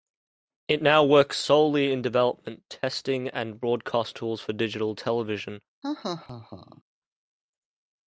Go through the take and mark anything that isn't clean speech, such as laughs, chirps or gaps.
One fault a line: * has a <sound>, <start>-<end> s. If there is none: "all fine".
* has a laugh, 5.8-6.8 s